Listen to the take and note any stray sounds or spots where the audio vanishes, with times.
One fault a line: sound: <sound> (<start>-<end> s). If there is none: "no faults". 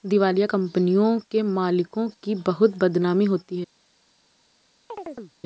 sound: chirp (4.9-5.3 s)